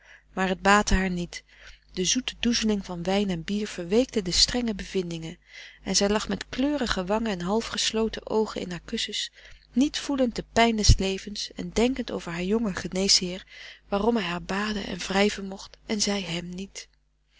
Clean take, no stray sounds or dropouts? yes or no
yes